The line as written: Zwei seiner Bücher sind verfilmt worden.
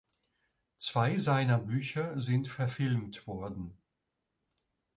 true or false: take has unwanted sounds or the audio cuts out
false